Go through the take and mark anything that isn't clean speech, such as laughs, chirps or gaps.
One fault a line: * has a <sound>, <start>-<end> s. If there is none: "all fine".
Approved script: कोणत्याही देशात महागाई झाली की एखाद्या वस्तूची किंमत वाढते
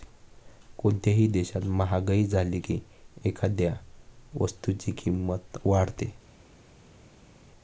all fine